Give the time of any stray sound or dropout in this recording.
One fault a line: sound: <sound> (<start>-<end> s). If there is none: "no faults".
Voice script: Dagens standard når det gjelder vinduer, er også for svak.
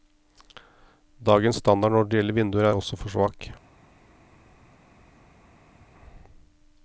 no faults